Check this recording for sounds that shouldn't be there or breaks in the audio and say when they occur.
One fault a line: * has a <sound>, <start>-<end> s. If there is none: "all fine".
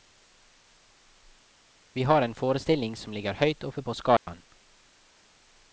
* has a dropout, 4.2-4.3 s